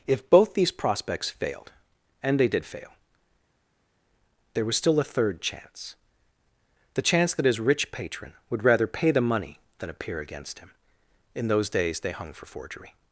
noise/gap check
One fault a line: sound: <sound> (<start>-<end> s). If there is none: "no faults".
no faults